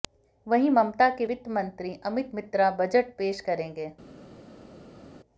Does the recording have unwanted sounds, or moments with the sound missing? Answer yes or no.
no